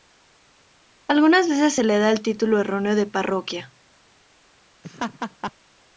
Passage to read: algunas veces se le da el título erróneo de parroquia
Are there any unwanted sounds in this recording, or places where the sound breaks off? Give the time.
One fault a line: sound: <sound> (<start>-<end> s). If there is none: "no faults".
sound: laugh (4.8-5.5 s)